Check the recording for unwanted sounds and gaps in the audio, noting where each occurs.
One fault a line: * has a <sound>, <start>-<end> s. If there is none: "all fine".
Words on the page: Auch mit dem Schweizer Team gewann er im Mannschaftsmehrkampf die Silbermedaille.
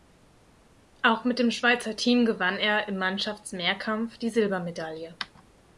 all fine